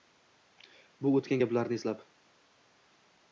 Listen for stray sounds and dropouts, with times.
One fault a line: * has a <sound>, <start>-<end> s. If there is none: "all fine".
all fine